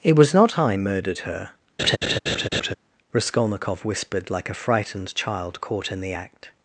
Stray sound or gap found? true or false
true